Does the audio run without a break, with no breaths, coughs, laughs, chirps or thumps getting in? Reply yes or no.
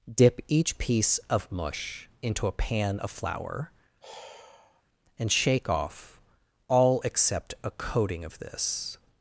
no